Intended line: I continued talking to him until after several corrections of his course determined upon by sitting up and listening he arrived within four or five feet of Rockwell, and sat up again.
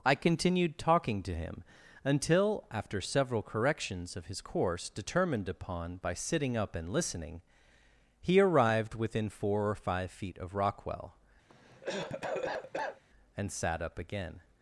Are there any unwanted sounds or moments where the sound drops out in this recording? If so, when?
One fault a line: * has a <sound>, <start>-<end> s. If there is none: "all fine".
* has a cough, 11.5-13.0 s